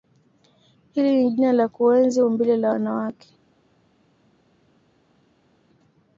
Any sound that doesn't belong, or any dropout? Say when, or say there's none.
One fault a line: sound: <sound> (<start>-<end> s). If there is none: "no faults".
no faults